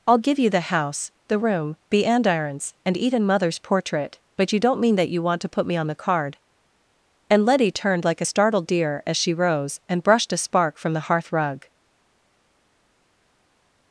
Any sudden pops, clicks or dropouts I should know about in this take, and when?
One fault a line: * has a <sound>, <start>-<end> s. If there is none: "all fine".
all fine